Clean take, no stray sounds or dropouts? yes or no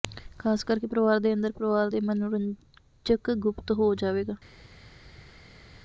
yes